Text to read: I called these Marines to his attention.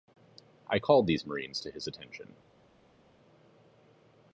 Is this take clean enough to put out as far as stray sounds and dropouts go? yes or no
yes